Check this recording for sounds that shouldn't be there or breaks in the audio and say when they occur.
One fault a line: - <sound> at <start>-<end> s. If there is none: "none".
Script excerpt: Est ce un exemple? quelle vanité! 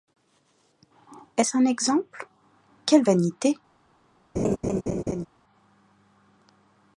- laugh at 4.3-5.3 s